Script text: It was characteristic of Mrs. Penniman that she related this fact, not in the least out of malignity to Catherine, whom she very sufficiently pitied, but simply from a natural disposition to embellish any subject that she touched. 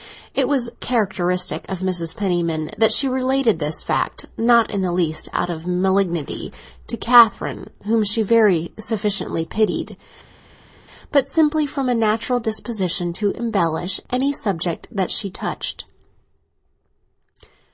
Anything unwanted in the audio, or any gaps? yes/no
no